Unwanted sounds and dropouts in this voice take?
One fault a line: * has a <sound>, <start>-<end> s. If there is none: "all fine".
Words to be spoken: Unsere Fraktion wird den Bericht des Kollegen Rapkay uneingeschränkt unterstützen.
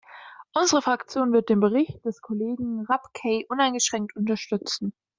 all fine